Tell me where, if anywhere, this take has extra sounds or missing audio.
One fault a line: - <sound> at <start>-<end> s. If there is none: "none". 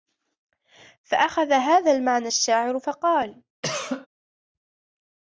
- cough at 3.6-4.1 s